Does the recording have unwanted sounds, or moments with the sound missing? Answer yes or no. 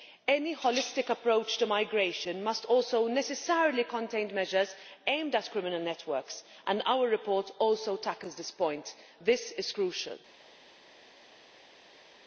no